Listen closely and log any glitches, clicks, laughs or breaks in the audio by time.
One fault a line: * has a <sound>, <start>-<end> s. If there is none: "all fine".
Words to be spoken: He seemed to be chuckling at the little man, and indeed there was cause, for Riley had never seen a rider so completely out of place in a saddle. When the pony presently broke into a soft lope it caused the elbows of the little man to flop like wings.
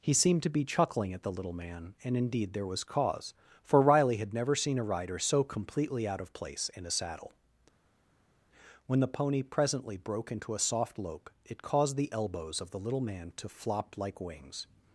all fine